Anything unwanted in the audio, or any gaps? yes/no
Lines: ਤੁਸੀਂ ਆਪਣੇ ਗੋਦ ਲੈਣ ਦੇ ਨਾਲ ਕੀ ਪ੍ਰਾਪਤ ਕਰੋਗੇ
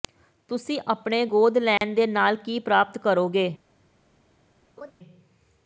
yes